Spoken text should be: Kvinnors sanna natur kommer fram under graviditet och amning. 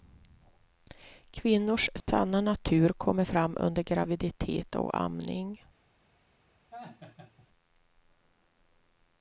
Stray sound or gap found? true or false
true